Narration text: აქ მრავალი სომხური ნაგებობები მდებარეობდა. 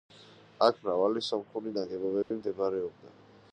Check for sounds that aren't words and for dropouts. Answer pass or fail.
fail